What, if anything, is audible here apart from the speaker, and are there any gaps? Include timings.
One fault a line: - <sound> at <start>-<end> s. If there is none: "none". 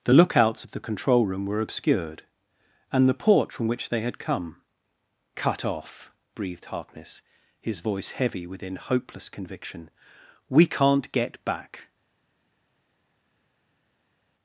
none